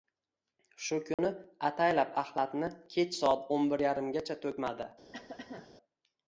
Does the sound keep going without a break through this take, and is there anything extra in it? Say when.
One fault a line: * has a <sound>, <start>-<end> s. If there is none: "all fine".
* has a dropout, 1.1-1.2 s
* has a cough, 5.1-5.7 s